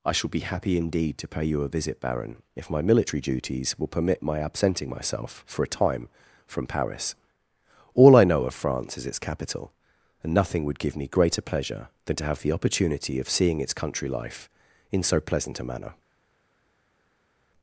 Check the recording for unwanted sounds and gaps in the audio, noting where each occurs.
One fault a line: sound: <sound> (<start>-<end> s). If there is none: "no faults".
no faults